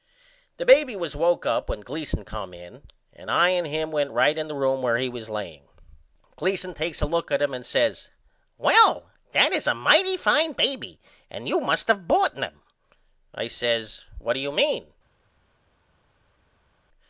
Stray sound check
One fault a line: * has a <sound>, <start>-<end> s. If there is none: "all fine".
all fine